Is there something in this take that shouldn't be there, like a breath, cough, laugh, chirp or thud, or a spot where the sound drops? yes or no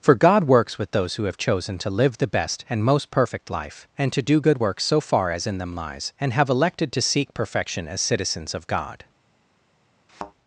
yes